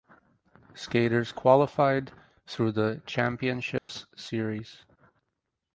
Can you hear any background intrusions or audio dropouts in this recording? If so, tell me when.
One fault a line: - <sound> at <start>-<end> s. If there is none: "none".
- dropout at 3.8-3.9 s